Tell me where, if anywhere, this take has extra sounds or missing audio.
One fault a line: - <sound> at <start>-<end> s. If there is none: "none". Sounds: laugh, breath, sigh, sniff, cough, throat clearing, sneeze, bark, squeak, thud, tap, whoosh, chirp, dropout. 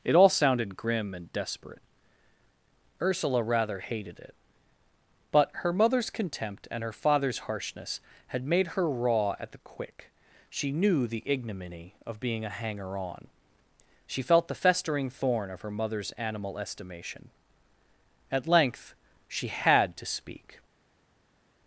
none